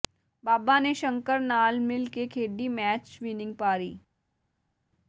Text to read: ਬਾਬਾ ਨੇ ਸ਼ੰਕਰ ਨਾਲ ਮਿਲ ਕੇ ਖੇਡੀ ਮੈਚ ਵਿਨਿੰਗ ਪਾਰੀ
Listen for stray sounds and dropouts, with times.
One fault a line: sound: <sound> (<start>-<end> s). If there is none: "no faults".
no faults